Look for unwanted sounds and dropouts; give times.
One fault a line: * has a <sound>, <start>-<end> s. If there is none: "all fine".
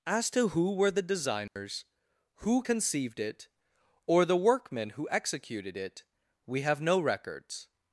* has a dropout, 1.5-1.6 s